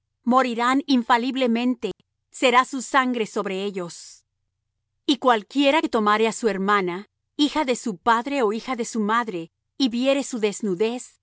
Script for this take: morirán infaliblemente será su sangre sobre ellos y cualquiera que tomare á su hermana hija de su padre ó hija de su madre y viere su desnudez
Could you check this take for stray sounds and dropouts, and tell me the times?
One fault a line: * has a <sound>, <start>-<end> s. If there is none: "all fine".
* has a dropout, 1.9-2.0 s